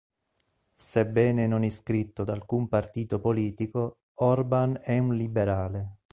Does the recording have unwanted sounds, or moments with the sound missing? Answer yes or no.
no